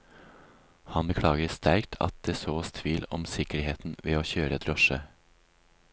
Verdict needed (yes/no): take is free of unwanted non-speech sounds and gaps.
yes